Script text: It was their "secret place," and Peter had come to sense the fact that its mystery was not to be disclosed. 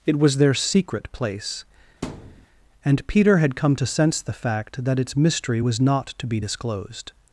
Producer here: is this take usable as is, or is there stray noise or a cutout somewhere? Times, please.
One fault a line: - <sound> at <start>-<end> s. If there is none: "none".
- thud at 2.0-2.5 s